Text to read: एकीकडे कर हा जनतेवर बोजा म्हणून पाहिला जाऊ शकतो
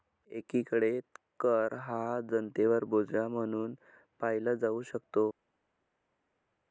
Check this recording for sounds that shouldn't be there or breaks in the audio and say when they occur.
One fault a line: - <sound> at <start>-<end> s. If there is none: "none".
none